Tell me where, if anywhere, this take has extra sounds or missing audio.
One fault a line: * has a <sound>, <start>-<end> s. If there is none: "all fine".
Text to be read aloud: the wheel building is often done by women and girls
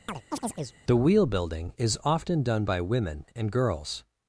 * has a chirp, 0.1-0.8 s